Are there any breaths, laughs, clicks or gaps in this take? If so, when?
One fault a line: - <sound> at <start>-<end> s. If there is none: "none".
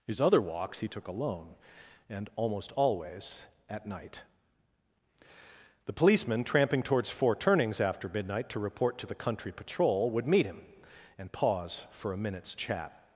none